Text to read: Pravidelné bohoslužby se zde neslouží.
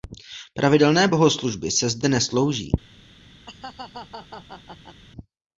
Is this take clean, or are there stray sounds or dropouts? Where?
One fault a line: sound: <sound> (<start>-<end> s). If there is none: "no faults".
sound: laugh (3.5-5.0 s)